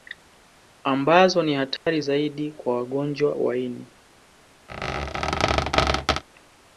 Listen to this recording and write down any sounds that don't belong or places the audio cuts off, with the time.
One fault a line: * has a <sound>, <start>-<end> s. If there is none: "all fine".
* has a dropout, 1.8-1.9 s
* has a squeak, 4.7-6.2 s